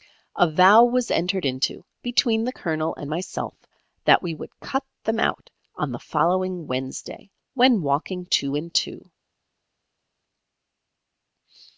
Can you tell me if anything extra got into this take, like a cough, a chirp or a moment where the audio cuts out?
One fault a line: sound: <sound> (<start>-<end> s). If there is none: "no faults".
no faults